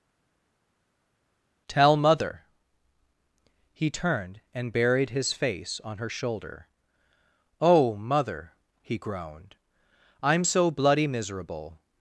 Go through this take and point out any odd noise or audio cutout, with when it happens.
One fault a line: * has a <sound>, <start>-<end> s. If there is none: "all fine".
all fine